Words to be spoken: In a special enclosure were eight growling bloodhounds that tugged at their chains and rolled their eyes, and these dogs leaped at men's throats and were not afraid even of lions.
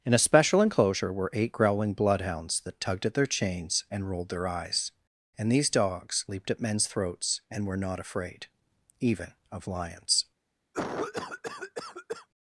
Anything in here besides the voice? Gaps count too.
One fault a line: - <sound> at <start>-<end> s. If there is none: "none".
- cough at 10.7-12.3 s